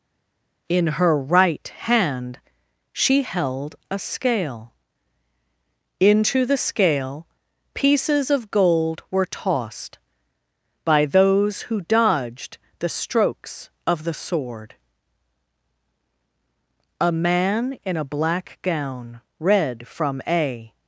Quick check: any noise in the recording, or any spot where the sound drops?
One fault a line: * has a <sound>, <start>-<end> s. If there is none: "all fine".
all fine